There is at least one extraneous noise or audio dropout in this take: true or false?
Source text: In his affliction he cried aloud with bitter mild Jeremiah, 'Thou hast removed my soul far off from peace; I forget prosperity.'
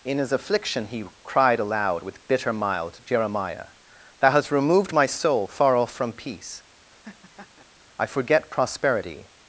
true